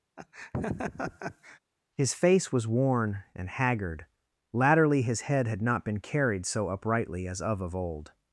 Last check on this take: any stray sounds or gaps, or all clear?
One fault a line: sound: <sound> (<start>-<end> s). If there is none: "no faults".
sound: laugh (0.2-1.6 s)